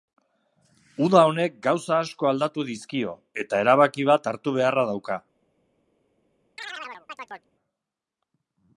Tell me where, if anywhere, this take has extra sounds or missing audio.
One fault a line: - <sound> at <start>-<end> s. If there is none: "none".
- chirp at 6.6-7.5 s